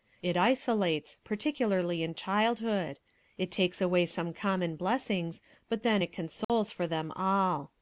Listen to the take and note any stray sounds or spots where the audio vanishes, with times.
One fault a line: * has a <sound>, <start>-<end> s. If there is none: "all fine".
* has a dropout, 6.4-6.5 s